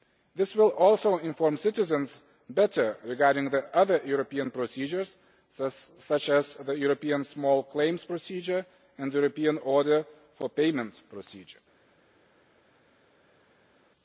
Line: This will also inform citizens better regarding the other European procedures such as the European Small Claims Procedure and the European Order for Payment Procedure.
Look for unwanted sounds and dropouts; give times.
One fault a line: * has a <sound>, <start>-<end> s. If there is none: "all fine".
all fine